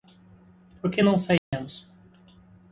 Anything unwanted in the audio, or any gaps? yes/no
yes